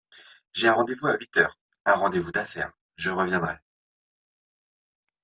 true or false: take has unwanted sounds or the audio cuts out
false